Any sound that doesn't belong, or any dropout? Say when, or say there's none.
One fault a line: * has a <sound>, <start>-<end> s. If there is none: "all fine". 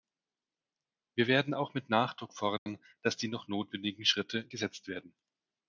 * has a dropout, 2.6-2.7 s